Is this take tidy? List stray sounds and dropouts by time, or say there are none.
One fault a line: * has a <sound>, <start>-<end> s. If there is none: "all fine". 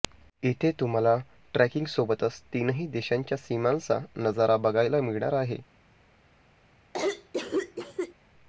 * has a cough, 6.9-8.1 s